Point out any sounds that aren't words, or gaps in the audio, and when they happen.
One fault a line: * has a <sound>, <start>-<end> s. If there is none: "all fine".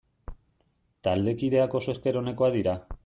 all fine